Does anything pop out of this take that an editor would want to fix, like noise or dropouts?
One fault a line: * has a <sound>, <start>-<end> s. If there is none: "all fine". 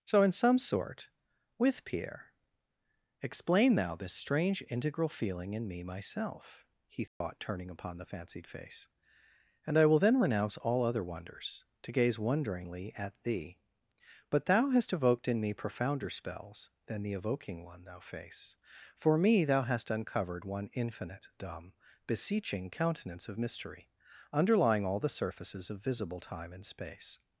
* has a dropout, 7.1-7.2 s